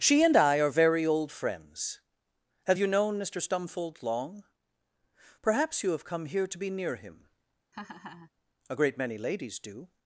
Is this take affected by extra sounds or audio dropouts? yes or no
yes